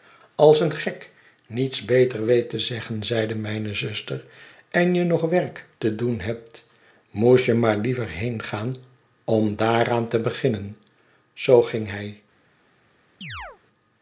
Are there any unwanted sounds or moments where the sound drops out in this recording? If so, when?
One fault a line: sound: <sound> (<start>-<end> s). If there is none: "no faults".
sound: chirp (13.2-13.6 s)